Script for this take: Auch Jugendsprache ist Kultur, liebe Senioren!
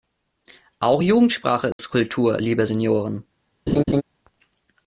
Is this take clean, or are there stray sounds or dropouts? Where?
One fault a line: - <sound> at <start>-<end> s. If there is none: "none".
- dropout at 1.7-1.8 s
- laugh at 3.7-4.0 s